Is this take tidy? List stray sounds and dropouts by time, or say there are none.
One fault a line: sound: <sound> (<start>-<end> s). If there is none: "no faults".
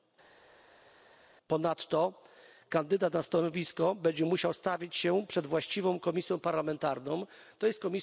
no faults